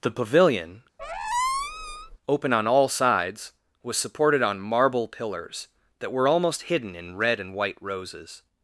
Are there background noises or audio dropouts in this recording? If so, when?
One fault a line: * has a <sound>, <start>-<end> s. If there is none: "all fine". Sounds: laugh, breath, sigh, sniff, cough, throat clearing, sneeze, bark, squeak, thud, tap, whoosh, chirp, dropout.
* has a squeak, 1.0-2.2 s